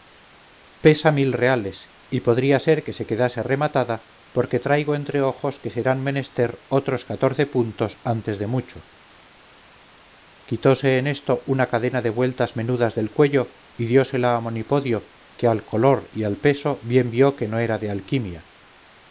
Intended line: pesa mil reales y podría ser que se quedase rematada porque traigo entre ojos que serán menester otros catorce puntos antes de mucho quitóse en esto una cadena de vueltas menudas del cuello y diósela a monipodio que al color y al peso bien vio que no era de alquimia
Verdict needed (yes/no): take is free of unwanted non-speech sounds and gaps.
yes